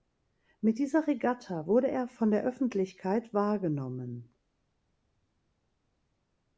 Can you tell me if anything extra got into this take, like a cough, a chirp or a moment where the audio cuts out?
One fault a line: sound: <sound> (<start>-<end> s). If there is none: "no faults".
no faults